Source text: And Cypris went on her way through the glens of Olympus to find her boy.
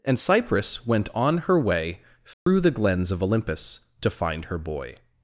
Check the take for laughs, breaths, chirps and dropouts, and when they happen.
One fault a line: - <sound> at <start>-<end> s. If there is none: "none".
- dropout at 2.3-2.5 s